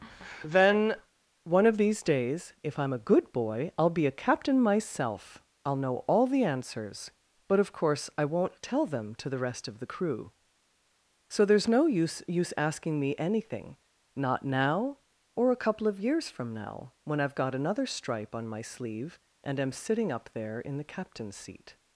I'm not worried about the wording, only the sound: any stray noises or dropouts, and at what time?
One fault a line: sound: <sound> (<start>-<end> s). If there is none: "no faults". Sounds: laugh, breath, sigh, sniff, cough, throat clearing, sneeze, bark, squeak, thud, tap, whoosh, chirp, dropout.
no faults